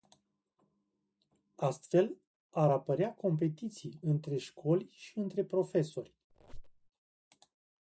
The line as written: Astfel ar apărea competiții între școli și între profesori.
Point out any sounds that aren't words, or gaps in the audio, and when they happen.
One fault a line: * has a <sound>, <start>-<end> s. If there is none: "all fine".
* has a squeak, 6.3-6.9 s